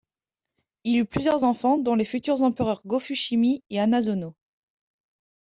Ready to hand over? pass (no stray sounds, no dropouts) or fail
pass